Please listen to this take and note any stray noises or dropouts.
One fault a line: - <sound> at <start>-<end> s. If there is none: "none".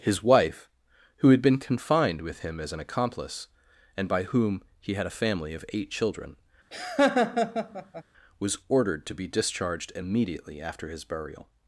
- laugh at 6.7-8.0 s